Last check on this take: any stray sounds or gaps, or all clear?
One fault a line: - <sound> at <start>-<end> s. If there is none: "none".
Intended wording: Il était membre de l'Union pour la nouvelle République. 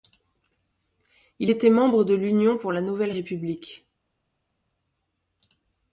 none